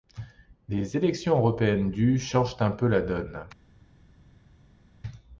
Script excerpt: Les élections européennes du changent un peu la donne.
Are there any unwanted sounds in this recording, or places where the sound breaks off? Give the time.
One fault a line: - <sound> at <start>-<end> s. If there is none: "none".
none